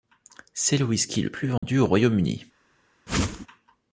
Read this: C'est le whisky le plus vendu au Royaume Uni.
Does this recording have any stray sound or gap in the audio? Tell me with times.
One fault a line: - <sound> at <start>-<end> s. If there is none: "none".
- dropout at 1.6-1.6 s
- whoosh at 3.1-3.5 s